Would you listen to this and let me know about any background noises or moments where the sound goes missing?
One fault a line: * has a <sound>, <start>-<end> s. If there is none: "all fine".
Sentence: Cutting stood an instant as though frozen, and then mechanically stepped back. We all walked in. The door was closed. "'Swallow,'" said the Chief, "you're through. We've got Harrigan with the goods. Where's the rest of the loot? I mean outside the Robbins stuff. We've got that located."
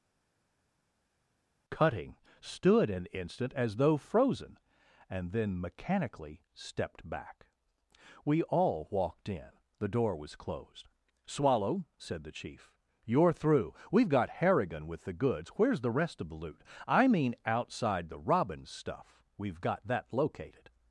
all fine